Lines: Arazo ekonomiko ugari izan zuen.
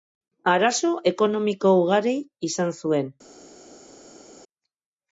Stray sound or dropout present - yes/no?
no